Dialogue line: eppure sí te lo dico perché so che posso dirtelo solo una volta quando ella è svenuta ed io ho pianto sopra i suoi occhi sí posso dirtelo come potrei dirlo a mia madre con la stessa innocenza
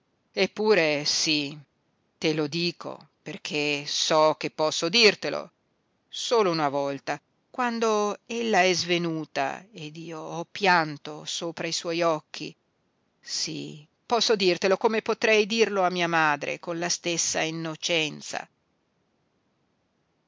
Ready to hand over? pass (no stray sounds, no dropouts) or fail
pass